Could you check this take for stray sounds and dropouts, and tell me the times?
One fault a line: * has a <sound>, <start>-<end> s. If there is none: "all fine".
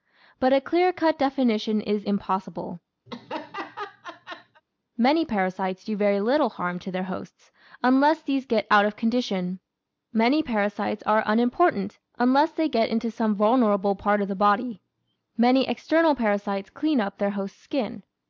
* has a laugh, 3.1-4.6 s